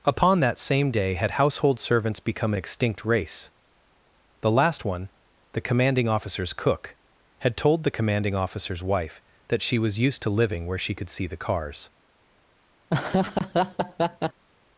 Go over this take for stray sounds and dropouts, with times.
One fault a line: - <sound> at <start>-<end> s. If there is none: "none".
- laugh at 12.9-14.4 s